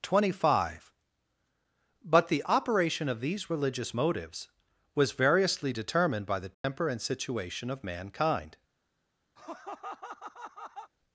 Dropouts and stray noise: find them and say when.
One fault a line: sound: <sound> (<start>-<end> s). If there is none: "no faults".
sound: dropout (6.5-6.6 s)
sound: laugh (9.4-10.9 s)